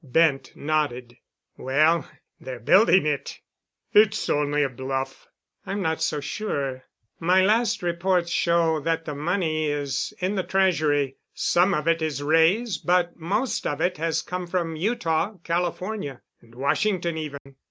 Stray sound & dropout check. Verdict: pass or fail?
fail